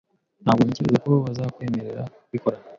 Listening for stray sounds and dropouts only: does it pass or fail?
pass